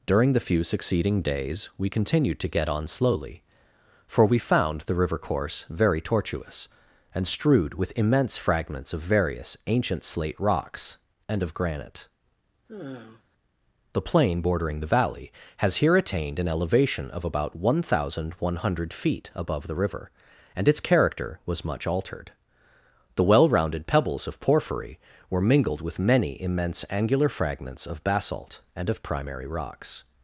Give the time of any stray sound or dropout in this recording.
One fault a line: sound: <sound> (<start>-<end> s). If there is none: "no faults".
sound: sigh (12.7-13.2 s)